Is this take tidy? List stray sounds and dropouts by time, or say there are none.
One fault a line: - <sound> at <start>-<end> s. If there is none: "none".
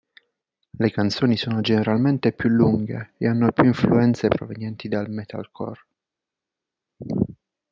none